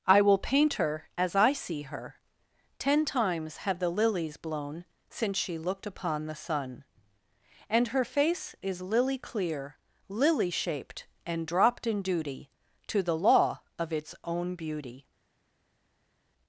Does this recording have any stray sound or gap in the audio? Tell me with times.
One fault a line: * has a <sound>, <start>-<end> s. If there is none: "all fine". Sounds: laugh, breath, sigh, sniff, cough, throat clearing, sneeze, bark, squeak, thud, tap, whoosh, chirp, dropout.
all fine